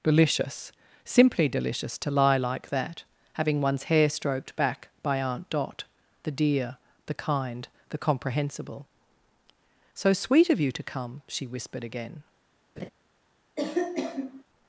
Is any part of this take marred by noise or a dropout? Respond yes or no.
yes